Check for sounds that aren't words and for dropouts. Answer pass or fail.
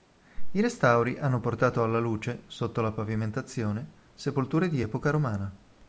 pass